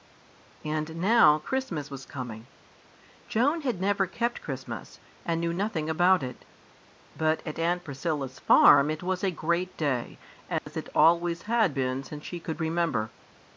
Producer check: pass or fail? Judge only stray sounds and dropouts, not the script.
fail